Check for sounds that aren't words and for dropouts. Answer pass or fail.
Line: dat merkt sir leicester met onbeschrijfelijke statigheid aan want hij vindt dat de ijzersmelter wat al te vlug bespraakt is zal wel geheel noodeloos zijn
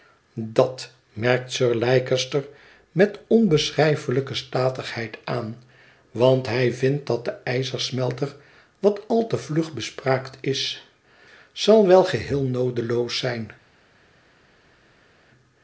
pass